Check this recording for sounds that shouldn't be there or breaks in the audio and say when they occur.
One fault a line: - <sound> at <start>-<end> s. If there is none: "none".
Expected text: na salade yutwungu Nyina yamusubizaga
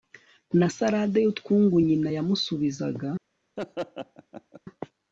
- laugh at 3.6-4.6 s